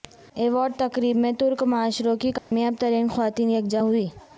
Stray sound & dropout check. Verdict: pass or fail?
fail